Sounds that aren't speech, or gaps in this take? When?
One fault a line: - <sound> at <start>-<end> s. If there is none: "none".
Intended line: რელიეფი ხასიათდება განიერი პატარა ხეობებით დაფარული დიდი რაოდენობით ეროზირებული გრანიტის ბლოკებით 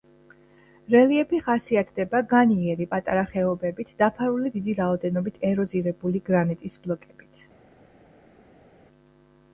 none